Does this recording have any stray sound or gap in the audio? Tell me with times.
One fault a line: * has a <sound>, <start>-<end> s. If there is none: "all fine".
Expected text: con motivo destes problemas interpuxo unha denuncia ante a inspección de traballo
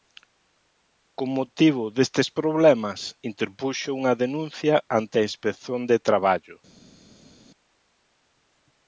all fine